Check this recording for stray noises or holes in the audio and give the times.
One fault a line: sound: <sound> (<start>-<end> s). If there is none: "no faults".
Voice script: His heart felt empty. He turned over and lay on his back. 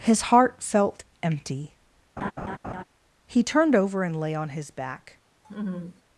sound: laugh (2.2-2.8 s)
sound: laugh (5.4-6.0 s)